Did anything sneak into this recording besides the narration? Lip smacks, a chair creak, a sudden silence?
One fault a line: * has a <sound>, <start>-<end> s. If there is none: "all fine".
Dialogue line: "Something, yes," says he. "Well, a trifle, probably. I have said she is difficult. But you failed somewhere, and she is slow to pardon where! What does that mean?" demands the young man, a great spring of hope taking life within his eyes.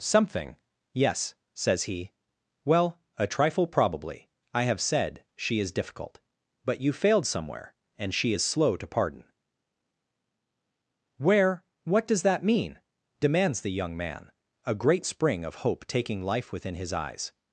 all fine